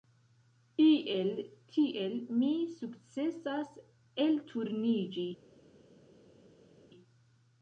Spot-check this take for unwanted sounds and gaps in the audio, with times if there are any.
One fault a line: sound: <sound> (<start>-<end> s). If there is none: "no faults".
no faults